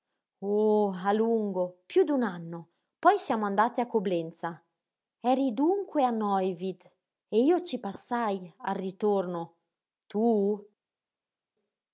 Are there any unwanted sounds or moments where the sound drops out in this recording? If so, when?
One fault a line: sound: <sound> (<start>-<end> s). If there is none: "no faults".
no faults